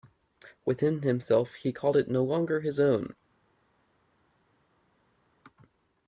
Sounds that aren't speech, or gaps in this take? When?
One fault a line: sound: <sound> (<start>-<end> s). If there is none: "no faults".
no faults